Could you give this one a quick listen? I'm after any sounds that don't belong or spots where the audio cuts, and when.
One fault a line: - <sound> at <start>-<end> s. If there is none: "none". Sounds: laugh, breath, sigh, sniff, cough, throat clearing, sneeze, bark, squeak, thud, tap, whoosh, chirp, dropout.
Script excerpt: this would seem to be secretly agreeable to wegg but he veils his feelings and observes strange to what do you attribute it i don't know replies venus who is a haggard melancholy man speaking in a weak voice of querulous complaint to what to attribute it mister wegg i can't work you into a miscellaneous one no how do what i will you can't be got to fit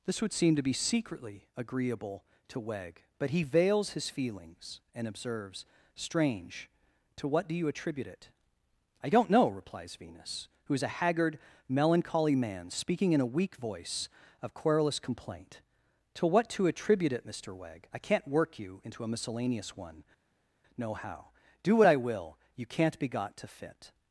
none